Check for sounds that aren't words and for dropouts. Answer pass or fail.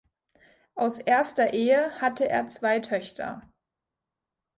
pass